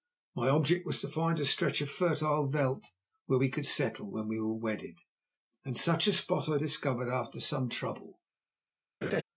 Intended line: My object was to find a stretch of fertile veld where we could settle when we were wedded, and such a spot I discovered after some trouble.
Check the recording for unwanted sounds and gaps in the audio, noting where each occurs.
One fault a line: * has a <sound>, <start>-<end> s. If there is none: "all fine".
* has a laugh, 9.0-9.2 s